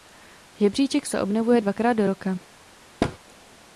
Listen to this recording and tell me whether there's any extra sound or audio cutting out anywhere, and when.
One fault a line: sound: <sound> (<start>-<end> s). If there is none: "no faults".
sound: thud (3.0-3.2 s)